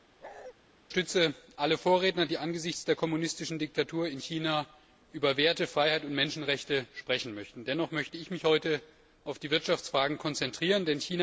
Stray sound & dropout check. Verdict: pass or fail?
fail